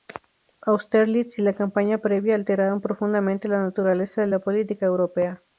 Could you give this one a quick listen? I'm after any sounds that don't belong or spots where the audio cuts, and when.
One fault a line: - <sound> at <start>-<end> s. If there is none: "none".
none